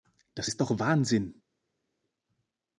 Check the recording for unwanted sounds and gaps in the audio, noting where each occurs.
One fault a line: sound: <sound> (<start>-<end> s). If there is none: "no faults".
no faults